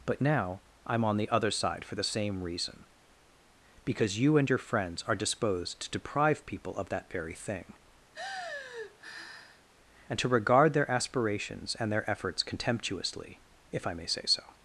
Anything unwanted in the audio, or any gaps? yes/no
yes